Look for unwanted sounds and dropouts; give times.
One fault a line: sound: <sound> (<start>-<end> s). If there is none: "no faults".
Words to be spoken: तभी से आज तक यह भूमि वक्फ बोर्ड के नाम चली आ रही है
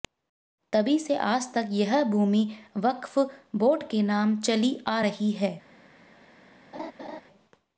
sound: laugh (6.7-7.2 s)